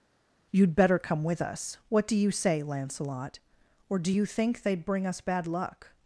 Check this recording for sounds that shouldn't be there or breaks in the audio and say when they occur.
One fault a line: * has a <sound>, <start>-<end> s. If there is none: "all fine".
all fine